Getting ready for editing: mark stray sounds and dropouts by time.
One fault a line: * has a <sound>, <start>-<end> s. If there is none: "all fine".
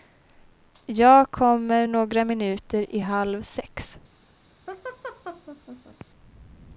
* has a laugh, 4.7-6.1 s